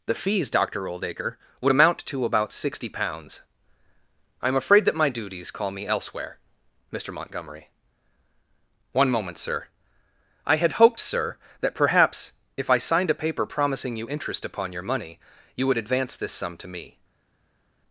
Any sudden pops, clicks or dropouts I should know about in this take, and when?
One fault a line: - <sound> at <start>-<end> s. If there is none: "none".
none